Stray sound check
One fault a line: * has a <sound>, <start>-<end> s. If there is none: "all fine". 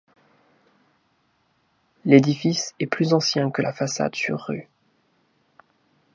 all fine